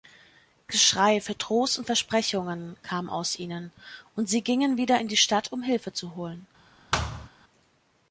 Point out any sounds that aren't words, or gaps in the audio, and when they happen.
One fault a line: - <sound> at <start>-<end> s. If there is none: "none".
- thud at 6.9-7.3 s